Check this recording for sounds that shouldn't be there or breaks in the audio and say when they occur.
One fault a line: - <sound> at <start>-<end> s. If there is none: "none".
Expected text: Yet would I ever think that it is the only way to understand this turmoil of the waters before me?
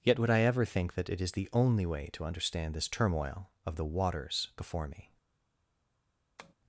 - tap at 6.4-6.5 s